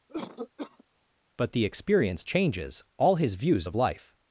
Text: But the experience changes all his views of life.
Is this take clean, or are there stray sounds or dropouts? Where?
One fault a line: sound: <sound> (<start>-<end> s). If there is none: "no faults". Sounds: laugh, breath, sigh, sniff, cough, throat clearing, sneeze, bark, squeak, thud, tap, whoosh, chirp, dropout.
sound: cough (0.1-0.8 s)